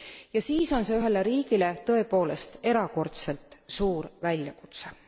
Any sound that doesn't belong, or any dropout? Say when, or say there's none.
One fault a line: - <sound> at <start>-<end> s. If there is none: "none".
none